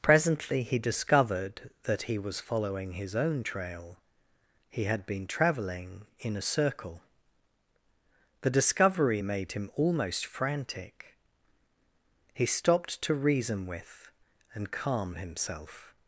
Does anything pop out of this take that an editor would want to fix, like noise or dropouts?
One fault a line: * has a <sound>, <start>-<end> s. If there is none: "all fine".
all fine